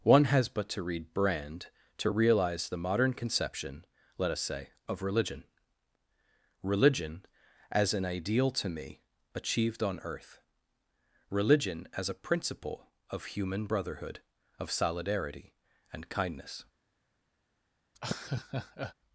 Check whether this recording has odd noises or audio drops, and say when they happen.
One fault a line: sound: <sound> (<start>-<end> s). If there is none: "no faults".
sound: laugh (17.9-18.9 s)